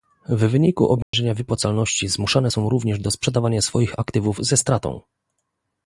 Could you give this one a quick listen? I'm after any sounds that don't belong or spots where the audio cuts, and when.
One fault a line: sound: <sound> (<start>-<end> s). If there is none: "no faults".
sound: dropout (1.0-1.1 s)